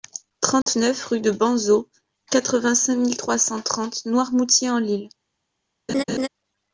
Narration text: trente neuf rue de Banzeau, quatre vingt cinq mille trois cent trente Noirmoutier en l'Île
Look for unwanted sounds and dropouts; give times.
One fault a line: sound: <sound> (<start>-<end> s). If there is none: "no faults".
sound: dropout (0.6-0.7 s)
sound: laugh (5.9-6.3 s)